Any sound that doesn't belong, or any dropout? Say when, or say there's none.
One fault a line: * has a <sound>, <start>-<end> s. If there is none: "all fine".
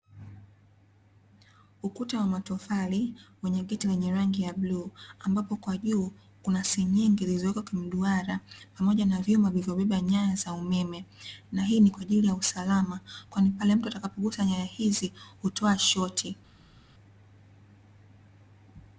all fine